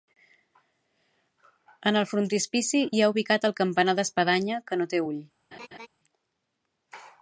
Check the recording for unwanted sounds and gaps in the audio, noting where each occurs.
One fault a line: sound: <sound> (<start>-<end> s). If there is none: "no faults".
sound: laugh (5.5-5.9 s)